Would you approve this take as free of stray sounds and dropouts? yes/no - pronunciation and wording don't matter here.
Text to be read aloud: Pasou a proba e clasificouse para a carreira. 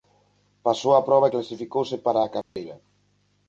no